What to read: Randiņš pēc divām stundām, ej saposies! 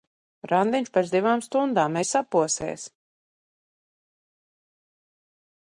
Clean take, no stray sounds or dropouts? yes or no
yes